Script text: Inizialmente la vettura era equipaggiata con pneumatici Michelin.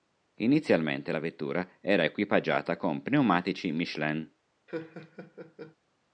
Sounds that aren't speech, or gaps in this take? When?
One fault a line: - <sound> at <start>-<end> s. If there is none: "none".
- laugh at 4.7-5.7 s